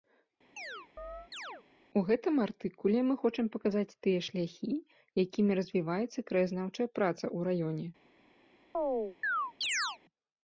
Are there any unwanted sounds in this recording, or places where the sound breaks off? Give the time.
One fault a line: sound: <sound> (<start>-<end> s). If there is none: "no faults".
sound: chirp (0.6-1.6 s)
sound: chirp (8.7-10.0 s)